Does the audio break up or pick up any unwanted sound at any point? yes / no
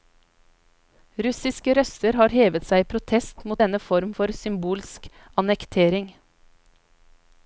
no